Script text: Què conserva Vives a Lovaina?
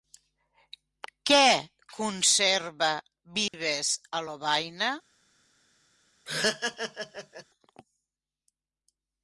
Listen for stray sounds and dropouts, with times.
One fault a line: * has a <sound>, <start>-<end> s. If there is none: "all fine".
* has a dropout, 3.5-3.5 s
* has a laugh, 6.3-7.4 s